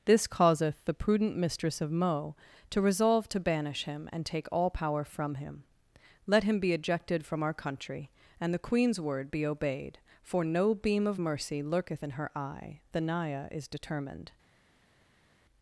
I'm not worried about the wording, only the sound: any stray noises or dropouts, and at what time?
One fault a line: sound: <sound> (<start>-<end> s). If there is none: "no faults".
no faults